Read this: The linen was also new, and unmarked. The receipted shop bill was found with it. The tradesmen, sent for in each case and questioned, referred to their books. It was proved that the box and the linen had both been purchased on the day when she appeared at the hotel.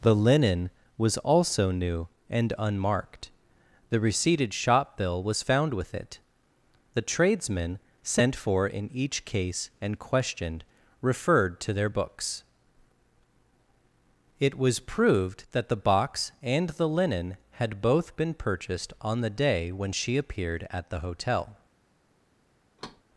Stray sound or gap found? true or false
true